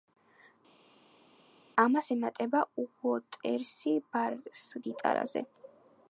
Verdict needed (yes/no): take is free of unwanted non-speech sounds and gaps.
yes